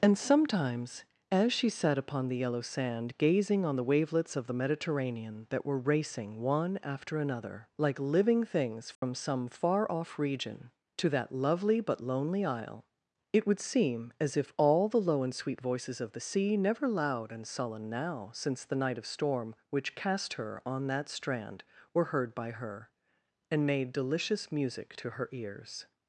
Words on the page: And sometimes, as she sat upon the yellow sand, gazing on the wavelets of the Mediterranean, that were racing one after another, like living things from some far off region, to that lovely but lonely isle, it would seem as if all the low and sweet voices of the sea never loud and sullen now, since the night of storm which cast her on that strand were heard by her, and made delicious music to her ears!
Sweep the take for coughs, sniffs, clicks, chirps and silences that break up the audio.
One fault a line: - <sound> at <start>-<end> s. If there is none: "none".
- dropout at 8.9-9.0 s